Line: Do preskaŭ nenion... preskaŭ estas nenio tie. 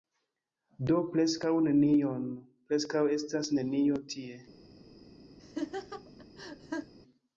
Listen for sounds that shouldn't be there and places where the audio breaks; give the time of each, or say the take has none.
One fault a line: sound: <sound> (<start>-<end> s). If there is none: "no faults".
sound: laugh (5.4-6.9 s)